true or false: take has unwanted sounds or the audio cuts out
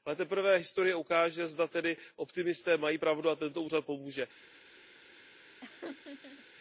true